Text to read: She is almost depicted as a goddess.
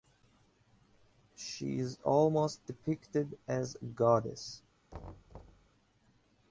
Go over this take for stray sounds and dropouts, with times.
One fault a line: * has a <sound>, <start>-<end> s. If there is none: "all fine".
* has a thud, 4.9-5.7 s